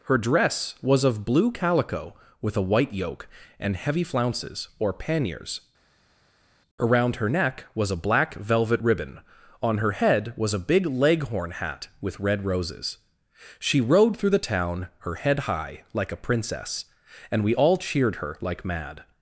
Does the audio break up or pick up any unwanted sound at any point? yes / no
no